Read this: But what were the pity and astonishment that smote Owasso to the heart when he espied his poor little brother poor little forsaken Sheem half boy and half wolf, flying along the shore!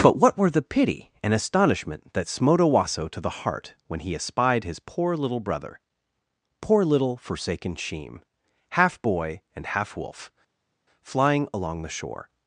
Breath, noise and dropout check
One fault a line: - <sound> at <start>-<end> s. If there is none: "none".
none